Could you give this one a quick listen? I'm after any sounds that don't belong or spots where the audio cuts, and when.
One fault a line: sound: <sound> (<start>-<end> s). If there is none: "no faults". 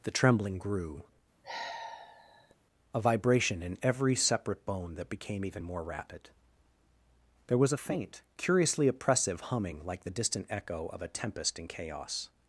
sound: sigh (1.4-2.5 s)